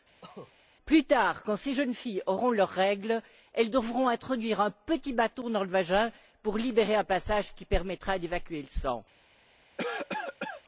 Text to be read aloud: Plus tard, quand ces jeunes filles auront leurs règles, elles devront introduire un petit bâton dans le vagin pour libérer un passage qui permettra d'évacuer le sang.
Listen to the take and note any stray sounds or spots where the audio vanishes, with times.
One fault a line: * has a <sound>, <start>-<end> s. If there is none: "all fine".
* has a cough, 0.2-0.5 s
* has a cough, 9.8-10.6 s